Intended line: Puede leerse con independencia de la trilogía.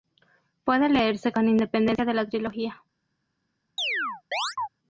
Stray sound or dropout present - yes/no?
yes